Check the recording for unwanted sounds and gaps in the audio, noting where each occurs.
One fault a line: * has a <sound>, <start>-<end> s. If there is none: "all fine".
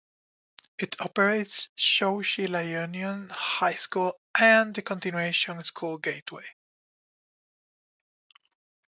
all fine